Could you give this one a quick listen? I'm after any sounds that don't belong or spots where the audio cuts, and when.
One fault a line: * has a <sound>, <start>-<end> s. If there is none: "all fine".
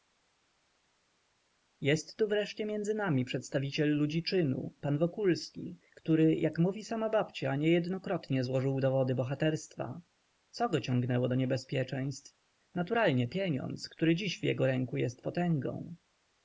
all fine